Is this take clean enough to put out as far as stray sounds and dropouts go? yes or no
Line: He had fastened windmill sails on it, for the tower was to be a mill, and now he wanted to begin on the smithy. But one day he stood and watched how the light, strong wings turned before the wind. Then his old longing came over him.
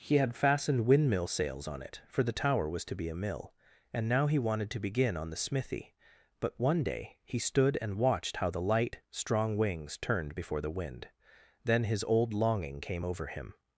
yes